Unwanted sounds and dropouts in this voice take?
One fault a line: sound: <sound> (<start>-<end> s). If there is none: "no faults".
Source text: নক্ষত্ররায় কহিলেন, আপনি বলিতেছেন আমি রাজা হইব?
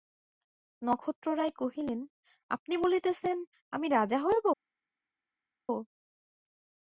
no faults